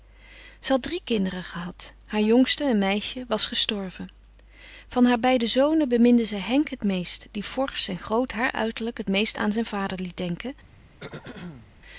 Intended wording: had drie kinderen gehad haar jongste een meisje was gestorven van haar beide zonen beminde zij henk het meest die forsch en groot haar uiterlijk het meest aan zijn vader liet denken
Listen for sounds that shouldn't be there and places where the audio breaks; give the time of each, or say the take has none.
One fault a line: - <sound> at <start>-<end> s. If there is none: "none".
- throat clearing at 11.0-11.7 s